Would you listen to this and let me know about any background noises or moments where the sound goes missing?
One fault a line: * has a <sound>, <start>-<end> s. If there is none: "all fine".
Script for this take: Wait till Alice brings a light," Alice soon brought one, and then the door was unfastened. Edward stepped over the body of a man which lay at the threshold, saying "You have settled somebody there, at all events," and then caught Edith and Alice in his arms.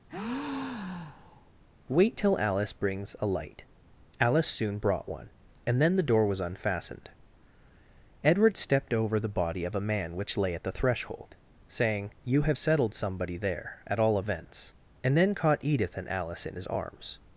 * has a breath, 0.1-1.5 s